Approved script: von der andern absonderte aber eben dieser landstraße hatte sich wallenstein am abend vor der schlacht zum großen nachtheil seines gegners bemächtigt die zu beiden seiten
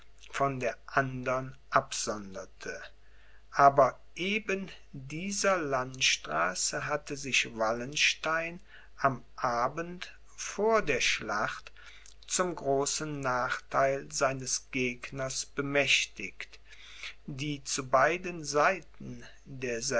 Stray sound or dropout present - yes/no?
no